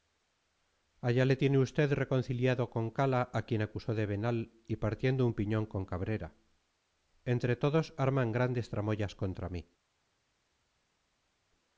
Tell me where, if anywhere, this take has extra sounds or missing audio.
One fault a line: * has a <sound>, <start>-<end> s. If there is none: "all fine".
all fine